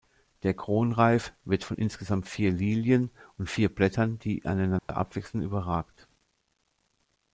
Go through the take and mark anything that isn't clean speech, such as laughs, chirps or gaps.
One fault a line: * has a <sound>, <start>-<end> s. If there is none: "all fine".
* has a dropout, 4.8-4.9 s